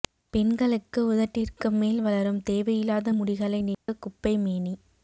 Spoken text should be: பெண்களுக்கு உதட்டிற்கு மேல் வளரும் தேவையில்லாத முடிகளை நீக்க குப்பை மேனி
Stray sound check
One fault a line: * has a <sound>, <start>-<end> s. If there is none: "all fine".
* has a dropout, 3.7-3.9 s